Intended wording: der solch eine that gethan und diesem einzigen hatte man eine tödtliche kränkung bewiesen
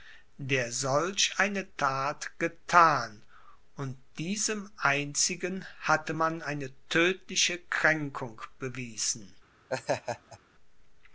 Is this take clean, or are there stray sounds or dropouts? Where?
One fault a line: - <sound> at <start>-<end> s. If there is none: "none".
- laugh at 9.7-10.4 s